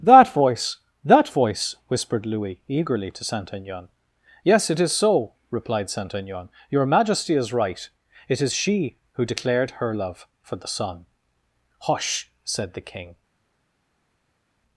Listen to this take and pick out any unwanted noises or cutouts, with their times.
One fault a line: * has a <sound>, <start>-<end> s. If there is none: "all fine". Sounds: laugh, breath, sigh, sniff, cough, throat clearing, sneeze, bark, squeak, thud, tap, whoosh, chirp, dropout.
all fine